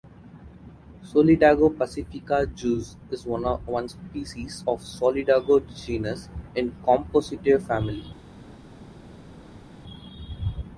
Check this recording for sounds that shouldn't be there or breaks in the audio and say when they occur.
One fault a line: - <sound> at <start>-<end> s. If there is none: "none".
none